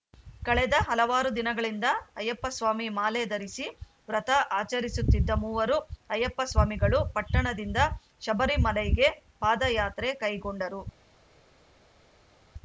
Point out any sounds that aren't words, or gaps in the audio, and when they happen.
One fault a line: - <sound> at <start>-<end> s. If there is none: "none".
none